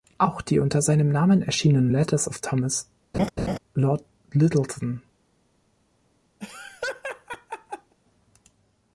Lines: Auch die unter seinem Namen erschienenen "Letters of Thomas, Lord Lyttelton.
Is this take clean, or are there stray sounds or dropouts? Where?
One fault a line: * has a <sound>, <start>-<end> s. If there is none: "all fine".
* has a laugh, 3.1-3.6 s
* has a laugh, 6.4-7.9 s